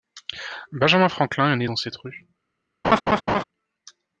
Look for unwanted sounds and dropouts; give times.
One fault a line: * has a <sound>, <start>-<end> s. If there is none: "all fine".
* has a laugh, 2.8-3.4 s